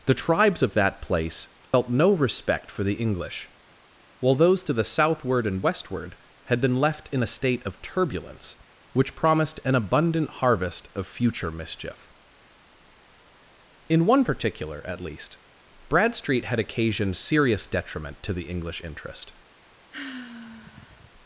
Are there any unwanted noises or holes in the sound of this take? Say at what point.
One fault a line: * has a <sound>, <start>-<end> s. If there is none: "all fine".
* has a dropout, 1.7-1.7 s
* has a sigh, 19.9-21.1 s